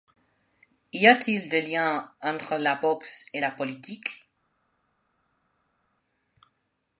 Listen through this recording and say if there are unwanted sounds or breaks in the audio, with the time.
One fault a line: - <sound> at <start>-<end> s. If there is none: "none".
none